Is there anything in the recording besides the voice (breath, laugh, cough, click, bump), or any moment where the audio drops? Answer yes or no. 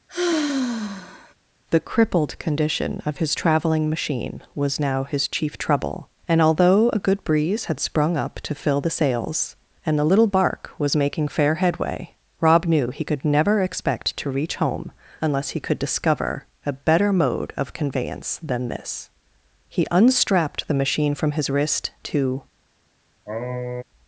yes